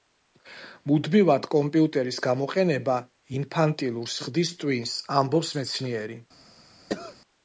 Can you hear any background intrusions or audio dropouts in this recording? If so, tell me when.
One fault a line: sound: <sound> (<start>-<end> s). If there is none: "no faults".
sound: cough (6.9-7.2 s)